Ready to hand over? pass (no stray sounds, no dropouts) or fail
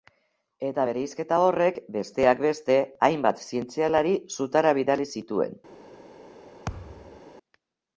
fail